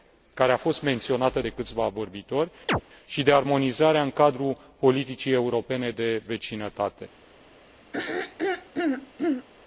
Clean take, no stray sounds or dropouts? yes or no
no